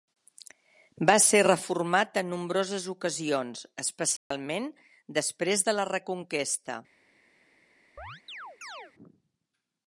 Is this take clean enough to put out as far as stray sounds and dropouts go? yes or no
no